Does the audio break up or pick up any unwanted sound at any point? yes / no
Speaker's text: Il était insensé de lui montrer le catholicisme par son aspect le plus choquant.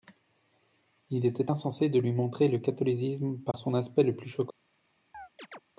yes